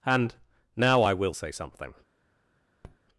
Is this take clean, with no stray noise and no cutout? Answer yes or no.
no